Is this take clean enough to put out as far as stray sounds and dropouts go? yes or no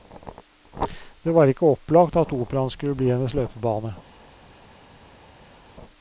yes